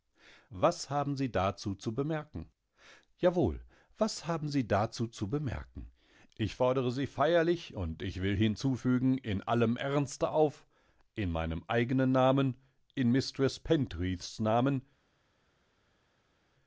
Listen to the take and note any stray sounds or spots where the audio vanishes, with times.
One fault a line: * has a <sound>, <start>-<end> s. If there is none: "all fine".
all fine